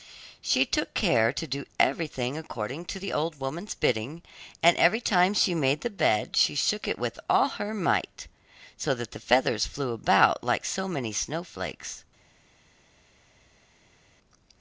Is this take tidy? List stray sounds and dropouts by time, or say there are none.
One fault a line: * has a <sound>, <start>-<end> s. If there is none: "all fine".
all fine